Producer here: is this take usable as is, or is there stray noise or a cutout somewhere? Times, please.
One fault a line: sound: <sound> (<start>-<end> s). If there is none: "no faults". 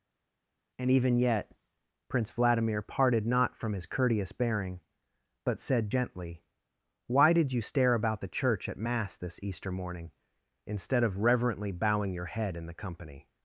no faults